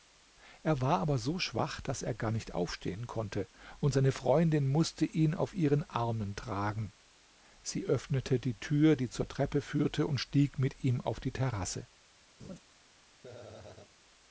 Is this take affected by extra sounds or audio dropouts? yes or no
yes